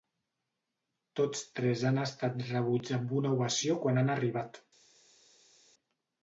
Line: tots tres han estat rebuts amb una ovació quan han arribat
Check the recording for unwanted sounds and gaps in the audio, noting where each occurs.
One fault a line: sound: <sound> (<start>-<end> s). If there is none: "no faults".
no faults